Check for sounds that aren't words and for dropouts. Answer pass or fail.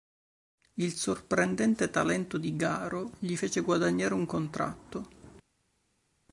pass